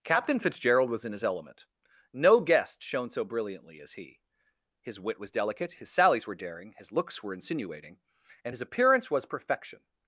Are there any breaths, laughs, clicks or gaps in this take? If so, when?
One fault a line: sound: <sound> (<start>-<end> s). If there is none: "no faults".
no faults